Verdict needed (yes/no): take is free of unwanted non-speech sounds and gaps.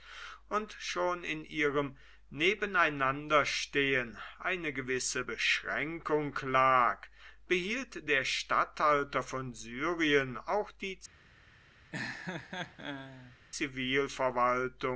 no